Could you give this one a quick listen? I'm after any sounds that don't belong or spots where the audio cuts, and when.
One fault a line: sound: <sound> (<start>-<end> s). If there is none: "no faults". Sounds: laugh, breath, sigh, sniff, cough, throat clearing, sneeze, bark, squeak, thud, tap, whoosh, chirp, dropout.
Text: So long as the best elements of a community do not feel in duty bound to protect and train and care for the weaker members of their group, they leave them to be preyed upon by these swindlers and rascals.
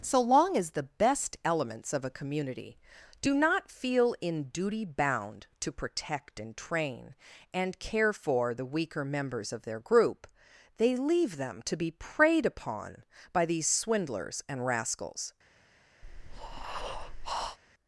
sound: breath (16.0-17.6 s)